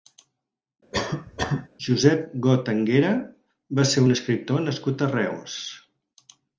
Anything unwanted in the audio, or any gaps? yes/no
yes